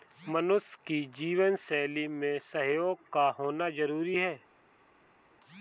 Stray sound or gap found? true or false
false